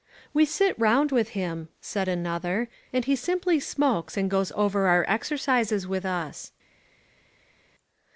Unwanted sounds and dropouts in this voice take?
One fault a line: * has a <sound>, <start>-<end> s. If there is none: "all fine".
all fine